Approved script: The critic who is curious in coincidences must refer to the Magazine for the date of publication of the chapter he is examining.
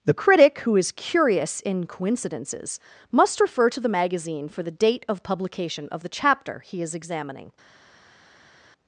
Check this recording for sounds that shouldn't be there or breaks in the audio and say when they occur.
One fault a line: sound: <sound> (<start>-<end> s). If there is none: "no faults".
no faults